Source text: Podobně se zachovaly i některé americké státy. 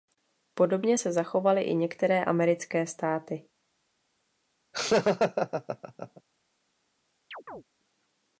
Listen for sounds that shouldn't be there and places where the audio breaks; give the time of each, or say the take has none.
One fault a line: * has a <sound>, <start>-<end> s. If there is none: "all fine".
* has a laugh, 4.7-6.2 s
* has a chirp, 7.3-7.6 s